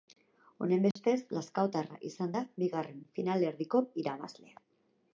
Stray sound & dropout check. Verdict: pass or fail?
fail